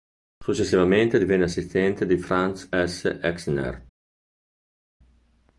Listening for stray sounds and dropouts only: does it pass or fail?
pass